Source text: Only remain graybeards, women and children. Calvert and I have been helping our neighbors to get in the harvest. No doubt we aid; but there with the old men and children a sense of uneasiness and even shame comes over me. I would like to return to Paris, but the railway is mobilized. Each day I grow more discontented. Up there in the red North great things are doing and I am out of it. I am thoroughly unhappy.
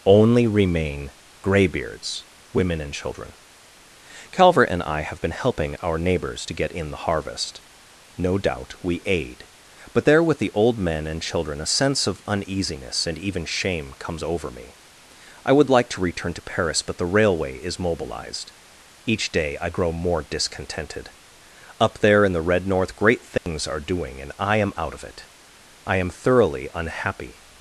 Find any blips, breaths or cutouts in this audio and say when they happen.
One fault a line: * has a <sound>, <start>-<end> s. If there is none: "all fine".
* has a dropout, 23.4-23.5 s